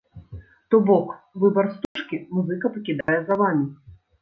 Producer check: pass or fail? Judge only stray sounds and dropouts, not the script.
fail